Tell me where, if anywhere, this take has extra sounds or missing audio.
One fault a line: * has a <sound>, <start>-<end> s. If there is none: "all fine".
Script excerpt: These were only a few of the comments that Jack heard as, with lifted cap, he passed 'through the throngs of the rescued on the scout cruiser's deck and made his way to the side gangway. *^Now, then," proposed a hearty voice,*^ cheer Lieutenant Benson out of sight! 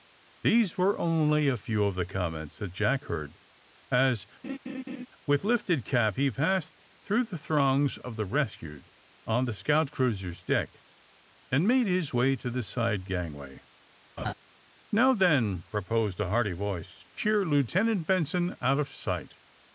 * has a laugh, 4.4-5.1 s
* has a laugh, 14.2-14.3 s